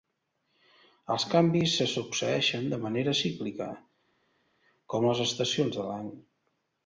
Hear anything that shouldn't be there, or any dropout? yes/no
no